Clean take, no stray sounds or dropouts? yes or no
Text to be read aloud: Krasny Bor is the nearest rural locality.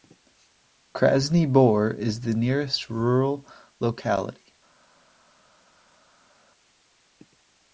yes